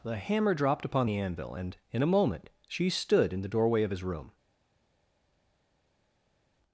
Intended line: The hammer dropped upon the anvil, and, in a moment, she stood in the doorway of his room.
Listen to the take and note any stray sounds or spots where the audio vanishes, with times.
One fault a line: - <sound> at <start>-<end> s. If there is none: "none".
none